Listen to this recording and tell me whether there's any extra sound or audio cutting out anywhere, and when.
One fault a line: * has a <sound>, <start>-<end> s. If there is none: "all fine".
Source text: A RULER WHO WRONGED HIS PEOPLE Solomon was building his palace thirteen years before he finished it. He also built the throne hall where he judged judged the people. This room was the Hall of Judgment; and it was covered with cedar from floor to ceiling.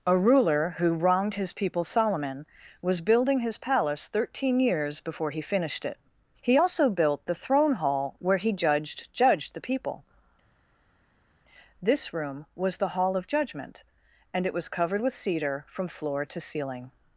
all fine